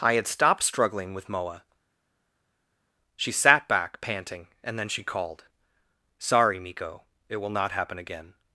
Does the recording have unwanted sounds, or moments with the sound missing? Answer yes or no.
no